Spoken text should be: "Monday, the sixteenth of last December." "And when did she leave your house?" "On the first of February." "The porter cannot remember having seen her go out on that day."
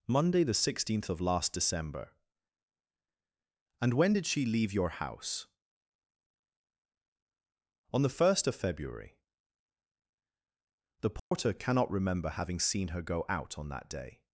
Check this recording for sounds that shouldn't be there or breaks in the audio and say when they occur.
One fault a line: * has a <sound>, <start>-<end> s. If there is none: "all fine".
* has a dropout, 11.2-11.3 s